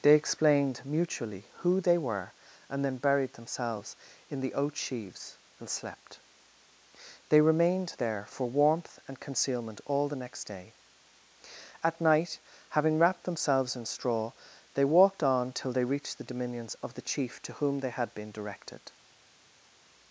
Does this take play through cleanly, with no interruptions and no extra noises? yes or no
yes